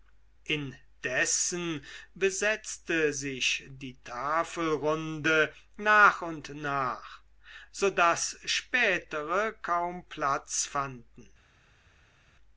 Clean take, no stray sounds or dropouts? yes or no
yes